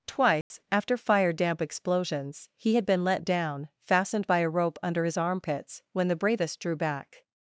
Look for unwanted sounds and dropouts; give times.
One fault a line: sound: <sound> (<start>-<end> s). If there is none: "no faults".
sound: dropout (0.4-0.5 s)